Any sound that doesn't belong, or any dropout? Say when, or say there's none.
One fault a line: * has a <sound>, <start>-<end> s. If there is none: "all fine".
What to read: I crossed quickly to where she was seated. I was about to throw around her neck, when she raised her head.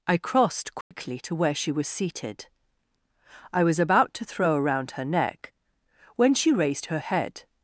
* has a dropout, 0.8-0.9 s